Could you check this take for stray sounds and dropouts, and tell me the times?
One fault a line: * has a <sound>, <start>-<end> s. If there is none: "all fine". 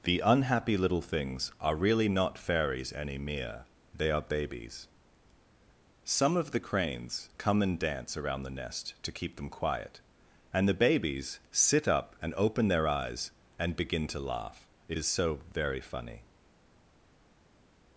all fine